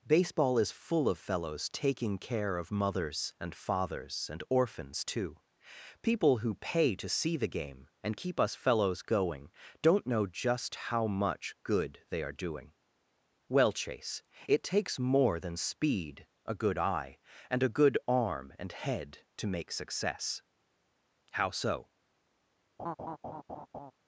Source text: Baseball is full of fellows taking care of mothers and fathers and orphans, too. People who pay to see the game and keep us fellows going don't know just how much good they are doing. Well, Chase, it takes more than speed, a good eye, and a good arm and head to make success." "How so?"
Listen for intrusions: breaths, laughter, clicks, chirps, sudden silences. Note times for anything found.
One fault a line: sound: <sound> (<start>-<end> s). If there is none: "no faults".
sound: laugh (22.8-23.9 s)